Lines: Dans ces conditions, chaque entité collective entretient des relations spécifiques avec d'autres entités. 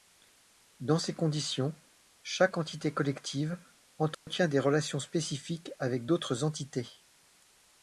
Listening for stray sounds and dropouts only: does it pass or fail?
fail